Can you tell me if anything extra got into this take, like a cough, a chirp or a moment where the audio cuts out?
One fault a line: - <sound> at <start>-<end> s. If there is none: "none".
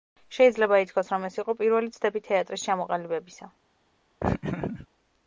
- laugh at 4.2-4.9 s